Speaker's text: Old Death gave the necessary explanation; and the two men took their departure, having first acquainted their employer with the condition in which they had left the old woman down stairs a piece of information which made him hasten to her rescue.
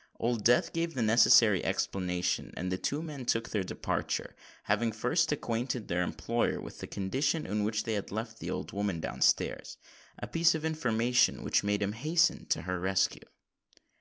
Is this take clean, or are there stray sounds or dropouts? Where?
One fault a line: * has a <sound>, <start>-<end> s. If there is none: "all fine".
all fine